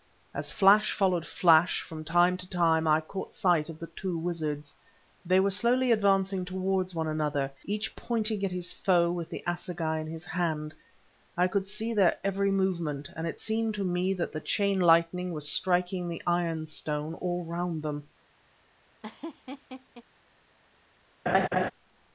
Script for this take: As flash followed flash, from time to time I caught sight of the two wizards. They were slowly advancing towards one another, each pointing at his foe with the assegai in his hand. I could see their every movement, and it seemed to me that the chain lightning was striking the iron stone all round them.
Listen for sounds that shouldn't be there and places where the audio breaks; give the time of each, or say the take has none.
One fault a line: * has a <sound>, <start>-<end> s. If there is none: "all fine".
* has a laugh, 19.0-20.0 s
* has a laugh, 21.3-21.7 s